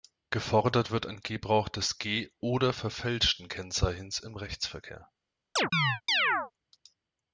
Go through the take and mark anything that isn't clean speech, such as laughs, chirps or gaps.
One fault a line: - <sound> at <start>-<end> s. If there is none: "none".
- chirp at 5.6-6.5 s